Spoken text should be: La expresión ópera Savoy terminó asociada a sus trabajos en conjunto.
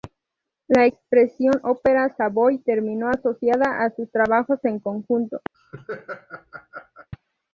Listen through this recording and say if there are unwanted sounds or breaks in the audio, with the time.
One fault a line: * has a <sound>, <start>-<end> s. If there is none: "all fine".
* has a laugh, 5.5-7.1 s